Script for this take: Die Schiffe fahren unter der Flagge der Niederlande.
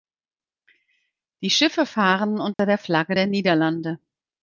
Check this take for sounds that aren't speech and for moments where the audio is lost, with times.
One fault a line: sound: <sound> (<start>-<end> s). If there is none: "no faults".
sound: dropout (2.5-2.6 s)